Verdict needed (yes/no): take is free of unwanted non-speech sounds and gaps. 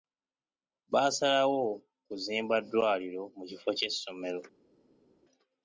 yes